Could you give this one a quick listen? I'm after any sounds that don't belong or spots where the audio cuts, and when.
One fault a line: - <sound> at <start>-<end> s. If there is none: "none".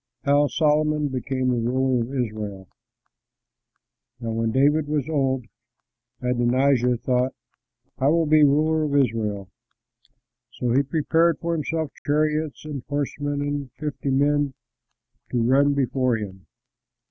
- dropout at 12.0-12.1 s